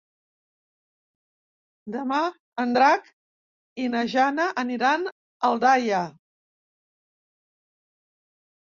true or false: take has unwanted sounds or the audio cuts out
false